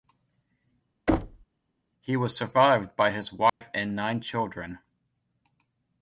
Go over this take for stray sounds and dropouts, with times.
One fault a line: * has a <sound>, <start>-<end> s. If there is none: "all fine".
* has a thud, 1.1-1.5 s
* has a dropout, 3.5-3.6 s